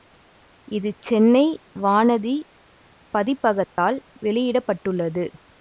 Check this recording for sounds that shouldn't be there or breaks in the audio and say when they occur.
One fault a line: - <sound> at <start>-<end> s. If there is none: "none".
- dropout at 3.6-3.8 s